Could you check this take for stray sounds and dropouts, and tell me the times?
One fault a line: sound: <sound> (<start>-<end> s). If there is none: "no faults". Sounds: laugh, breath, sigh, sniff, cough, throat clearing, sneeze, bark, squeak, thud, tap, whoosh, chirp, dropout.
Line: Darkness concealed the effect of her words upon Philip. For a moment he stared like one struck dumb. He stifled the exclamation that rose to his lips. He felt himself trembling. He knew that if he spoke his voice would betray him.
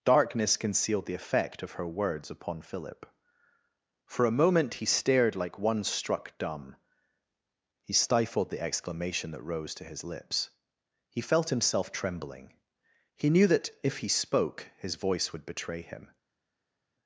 no faults